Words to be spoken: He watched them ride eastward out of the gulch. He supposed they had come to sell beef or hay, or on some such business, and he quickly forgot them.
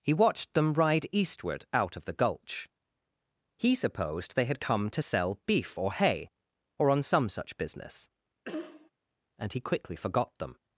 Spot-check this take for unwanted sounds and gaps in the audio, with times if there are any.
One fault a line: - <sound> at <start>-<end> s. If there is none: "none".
- cough at 8.4-8.9 s